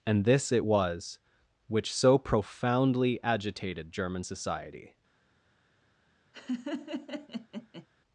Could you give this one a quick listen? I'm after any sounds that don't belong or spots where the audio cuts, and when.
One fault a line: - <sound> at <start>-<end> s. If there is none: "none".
- laugh at 6.3-7.9 s